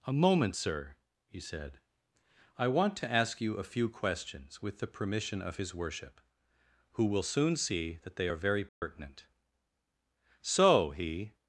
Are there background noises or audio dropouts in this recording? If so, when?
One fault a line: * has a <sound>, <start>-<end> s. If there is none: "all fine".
* has a dropout, 8.7-8.8 s